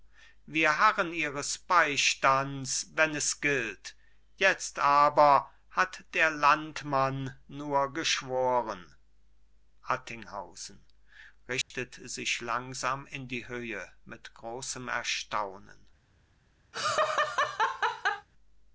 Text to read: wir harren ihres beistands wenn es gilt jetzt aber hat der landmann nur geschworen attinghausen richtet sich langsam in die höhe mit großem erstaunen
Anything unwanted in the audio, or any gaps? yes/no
yes